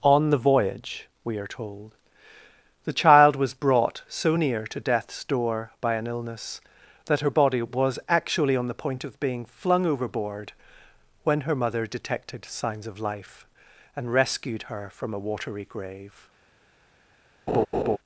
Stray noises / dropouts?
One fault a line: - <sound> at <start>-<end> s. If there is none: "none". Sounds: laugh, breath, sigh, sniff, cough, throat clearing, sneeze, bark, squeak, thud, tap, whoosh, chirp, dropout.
- laugh at 17.5-18.0 s